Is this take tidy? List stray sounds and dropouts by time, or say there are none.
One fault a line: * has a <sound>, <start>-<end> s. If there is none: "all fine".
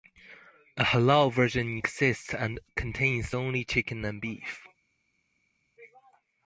all fine